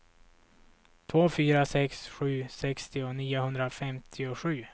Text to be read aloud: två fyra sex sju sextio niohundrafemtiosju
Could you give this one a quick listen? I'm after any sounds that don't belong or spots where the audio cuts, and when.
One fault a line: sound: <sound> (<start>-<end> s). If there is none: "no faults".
no faults